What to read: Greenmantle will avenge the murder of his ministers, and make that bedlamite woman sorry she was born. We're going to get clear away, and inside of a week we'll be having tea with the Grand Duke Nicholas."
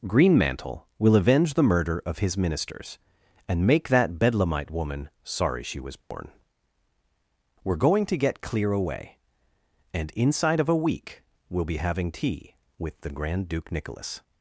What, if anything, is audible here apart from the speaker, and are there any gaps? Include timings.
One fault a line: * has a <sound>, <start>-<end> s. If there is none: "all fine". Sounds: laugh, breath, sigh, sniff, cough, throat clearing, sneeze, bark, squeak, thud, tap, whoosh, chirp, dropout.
* has a dropout, 6.0-6.1 s